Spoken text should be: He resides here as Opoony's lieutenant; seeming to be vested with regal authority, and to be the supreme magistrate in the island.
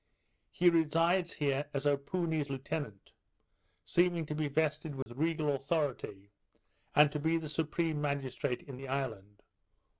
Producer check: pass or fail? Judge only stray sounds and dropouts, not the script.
fail